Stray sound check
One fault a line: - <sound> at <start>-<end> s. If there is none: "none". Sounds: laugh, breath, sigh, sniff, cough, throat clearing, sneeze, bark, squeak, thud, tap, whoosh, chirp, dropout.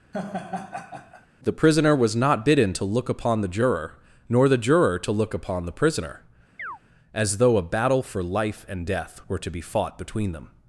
- laugh at 0.1-1.3 s
- chirp at 6.6-6.8 s